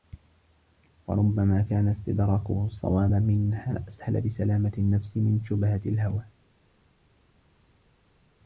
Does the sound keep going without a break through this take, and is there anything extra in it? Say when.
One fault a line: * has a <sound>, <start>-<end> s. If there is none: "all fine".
all fine